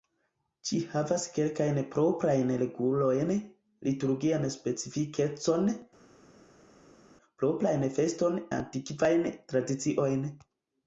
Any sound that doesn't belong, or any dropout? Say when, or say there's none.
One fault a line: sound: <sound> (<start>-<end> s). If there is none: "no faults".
no faults